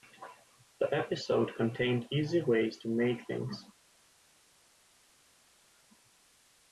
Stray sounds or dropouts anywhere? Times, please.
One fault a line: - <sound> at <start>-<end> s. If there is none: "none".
none